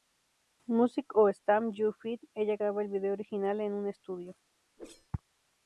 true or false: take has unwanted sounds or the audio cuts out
true